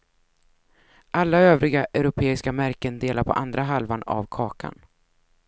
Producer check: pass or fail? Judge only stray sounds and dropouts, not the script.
pass